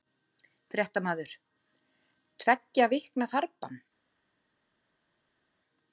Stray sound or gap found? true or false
false